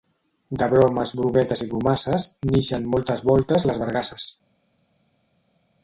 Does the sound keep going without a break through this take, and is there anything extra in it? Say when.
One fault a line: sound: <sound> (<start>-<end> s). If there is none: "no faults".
no faults